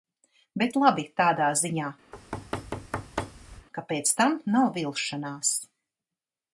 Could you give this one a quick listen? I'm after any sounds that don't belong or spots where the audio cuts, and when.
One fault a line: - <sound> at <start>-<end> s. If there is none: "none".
- thud at 2.1-3.7 s